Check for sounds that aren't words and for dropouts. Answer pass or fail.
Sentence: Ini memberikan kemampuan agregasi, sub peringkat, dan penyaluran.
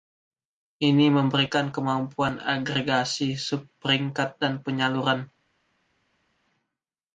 pass